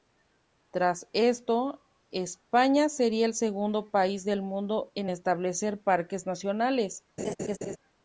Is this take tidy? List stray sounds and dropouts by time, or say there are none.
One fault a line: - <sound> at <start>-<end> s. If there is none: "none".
- laugh at 7.2-7.8 s